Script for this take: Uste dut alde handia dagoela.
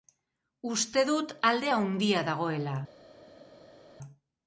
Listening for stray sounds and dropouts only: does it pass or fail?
pass